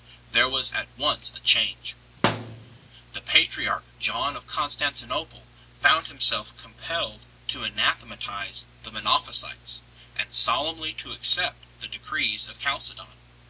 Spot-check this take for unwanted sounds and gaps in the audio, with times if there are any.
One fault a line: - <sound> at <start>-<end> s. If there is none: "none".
- thud at 2.2-2.8 s